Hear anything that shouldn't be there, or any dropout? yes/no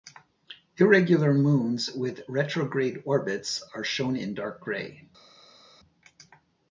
no